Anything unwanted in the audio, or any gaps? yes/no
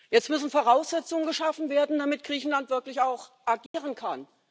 yes